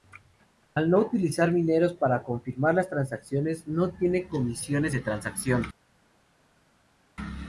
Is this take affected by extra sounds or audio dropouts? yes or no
no